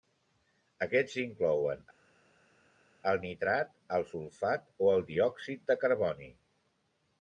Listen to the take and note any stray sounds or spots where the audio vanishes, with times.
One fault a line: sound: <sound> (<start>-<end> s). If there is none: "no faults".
no faults